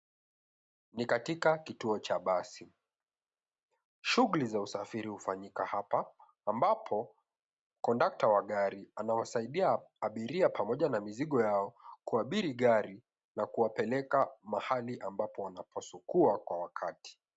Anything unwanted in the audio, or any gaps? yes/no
no